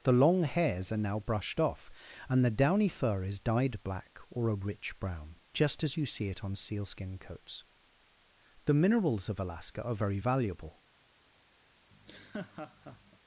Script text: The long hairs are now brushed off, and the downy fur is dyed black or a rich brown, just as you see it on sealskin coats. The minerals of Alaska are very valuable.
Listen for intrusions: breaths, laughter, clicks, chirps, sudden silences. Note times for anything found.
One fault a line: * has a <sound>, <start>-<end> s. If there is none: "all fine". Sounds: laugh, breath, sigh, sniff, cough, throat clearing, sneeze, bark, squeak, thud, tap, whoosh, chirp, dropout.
* has a laugh, 11.9-13.2 s